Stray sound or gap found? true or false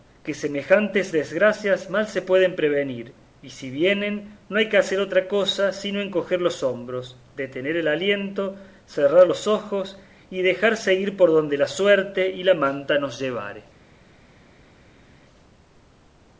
false